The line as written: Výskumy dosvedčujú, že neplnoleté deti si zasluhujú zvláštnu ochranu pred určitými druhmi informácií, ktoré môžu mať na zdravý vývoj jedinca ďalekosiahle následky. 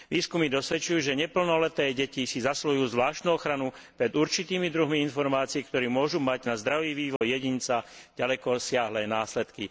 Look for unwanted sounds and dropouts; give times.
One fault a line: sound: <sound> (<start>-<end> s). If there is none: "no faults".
sound: dropout (7.2-7.2 s)